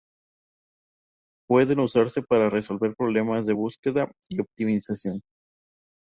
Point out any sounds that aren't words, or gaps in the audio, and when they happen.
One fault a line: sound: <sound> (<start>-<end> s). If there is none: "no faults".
no faults